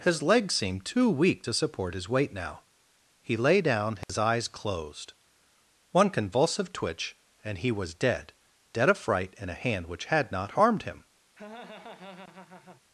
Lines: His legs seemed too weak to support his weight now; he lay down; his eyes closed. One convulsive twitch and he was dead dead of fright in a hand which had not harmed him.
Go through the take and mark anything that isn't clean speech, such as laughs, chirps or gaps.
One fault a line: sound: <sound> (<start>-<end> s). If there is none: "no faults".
sound: dropout (4.0-4.1 s)
sound: laugh (11.3-12.8 s)